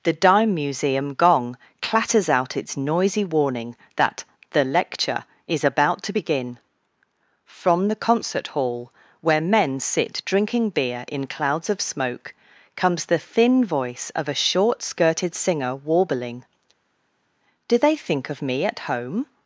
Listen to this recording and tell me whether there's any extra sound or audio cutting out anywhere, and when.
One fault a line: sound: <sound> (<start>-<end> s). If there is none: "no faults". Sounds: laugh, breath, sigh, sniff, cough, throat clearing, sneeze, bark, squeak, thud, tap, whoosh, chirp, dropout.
no faults